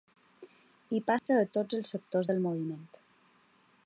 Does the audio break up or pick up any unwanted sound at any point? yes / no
yes